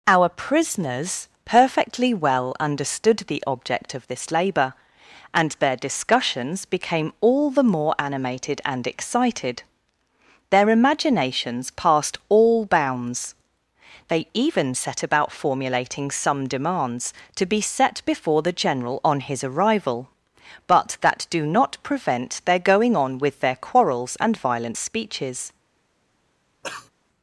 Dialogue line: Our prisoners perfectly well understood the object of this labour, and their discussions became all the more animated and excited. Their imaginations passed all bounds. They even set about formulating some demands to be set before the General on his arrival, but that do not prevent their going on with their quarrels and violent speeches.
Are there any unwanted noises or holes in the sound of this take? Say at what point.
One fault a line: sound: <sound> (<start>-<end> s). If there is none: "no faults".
sound: cough (26.6-26.9 s)